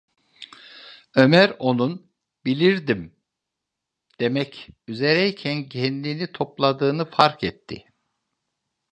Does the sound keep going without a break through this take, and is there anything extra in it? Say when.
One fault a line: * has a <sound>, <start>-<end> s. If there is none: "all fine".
all fine